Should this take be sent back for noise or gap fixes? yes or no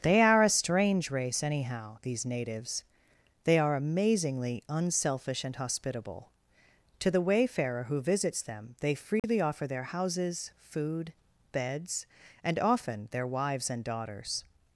yes